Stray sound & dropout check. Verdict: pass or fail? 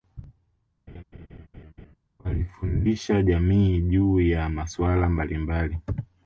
fail